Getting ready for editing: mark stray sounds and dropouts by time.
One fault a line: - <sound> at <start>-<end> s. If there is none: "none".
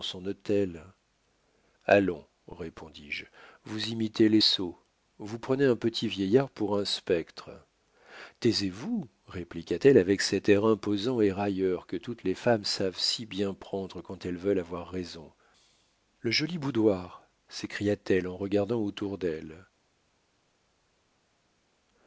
none